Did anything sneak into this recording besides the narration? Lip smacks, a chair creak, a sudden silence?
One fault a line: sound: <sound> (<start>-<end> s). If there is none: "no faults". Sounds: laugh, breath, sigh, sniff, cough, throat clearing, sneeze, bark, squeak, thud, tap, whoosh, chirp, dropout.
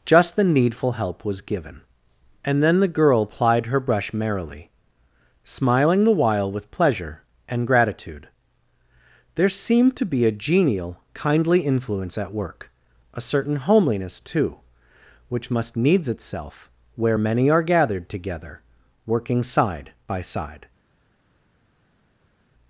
no faults